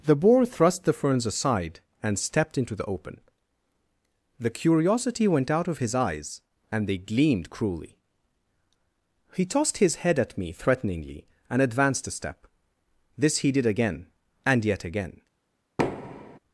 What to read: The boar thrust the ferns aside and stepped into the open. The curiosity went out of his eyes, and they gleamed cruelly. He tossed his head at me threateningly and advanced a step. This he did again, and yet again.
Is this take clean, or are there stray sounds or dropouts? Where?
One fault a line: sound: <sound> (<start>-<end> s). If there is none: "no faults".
sound: thud (15.8-16.4 s)